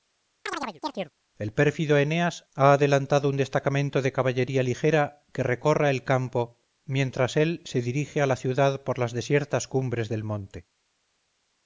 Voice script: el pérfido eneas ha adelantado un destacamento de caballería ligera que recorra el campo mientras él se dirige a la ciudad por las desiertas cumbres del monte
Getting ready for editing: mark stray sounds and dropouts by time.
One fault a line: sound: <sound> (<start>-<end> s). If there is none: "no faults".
sound: chirp (0.5-1.1 s)